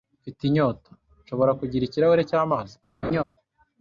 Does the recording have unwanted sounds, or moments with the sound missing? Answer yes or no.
yes